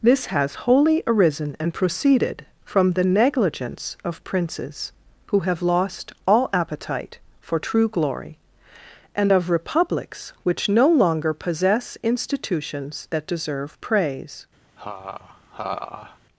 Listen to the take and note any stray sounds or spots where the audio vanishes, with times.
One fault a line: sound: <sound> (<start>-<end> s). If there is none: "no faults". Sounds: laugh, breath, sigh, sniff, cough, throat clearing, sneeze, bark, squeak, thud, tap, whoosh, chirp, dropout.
sound: laugh (14.8-16.2 s)